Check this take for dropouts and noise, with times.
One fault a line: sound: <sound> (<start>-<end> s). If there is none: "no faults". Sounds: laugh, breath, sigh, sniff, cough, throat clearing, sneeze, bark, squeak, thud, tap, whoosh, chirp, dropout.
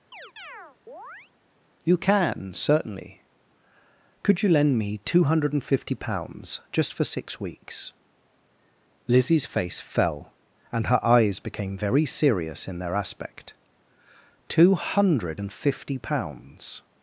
sound: chirp (0.1-1.3 s)